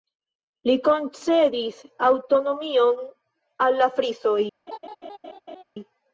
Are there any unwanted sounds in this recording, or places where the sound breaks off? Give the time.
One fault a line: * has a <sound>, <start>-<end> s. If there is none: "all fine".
* has a laugh, 4.7-5.6 s